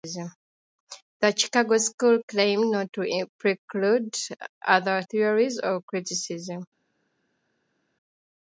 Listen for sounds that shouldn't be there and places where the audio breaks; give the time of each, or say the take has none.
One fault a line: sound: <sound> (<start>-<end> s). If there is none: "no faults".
no faults